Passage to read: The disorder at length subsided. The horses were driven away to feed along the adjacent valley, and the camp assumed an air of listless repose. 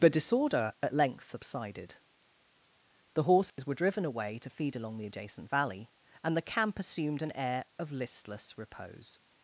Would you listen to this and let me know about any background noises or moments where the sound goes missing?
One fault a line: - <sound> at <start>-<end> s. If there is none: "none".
- dropout at 3.5-3.6 s